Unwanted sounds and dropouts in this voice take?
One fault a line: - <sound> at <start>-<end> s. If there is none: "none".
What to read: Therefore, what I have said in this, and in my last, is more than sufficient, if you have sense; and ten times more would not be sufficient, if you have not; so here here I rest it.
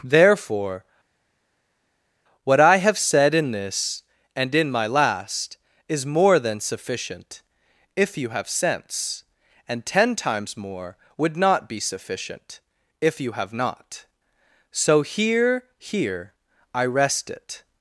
none